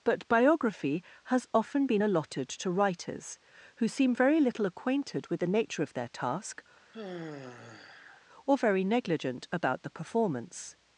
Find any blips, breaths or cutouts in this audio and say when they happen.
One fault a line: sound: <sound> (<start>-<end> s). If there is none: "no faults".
sound: sigh (6.9-8.3 s)